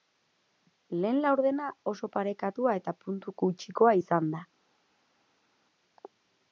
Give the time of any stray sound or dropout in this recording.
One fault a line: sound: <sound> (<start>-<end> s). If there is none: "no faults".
no faults